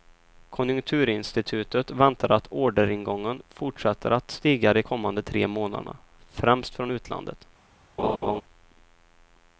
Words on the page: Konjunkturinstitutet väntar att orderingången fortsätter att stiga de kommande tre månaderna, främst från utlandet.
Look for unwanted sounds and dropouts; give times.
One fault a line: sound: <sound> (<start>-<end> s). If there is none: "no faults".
sound: laugh (8.0-8.4 s)